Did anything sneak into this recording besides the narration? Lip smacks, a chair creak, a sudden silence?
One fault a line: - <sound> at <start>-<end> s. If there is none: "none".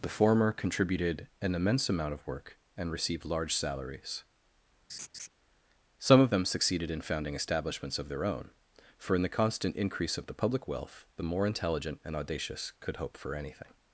- laugh at 4.9-5.3 s